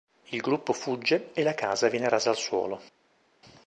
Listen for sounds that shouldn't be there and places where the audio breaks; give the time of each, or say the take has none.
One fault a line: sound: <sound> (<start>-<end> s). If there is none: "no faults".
no faults